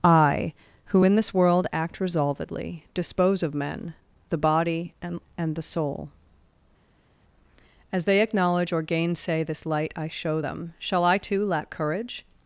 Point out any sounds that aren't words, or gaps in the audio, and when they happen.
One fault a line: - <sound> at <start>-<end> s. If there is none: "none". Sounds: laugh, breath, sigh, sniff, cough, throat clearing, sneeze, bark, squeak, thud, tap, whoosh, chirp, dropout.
none